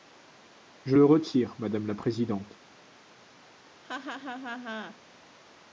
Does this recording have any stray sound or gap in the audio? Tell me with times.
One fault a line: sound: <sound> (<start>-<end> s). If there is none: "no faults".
sound: laugh (3.8-5.0 s)